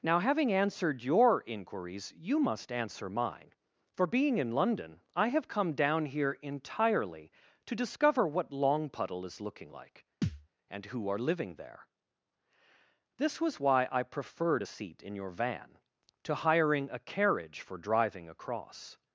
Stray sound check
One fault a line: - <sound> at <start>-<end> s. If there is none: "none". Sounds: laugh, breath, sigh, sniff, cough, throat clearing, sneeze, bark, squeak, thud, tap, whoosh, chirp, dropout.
- thud at 10.2-10.5 s